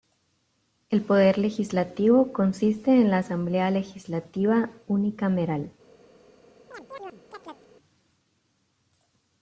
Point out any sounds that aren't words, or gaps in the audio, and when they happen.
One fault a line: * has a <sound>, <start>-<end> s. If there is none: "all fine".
* has a chirp, 6.7-7.7 s